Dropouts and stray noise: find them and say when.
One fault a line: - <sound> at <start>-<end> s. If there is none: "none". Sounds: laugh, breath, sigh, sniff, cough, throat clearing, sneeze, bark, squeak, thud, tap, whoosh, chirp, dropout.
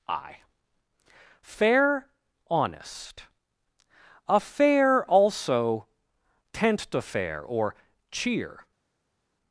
none